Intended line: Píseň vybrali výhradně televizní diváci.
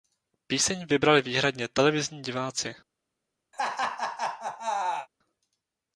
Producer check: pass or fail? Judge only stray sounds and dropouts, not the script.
fail